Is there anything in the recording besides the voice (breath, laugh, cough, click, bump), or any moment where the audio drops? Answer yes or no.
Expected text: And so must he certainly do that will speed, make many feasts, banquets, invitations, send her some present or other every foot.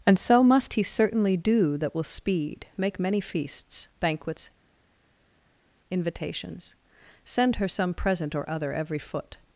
no